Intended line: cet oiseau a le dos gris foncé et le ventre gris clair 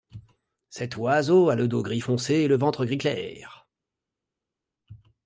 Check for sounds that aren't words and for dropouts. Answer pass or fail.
pass